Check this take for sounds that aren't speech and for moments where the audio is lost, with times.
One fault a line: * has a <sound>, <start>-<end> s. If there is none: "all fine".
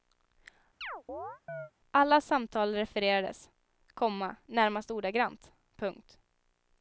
* has a chirp, 0.8-1.7 s